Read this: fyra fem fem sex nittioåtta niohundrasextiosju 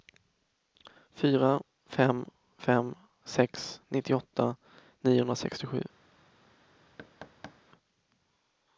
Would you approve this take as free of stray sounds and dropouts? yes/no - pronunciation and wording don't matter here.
no